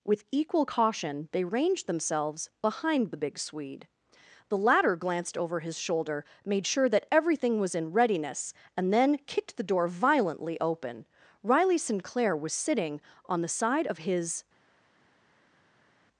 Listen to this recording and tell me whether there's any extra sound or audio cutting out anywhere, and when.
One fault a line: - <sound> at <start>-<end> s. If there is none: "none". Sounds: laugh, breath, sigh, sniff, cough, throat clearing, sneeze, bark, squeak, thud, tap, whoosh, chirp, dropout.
none